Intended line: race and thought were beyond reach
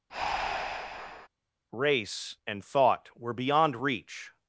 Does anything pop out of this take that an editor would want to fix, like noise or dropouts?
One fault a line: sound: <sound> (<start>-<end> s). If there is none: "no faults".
sound: breath (0.1-1.3 s)